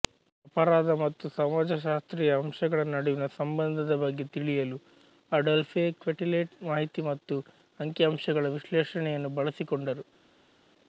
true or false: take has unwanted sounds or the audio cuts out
false